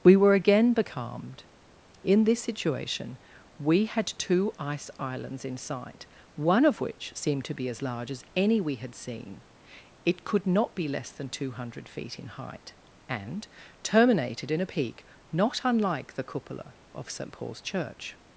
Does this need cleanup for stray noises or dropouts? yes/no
no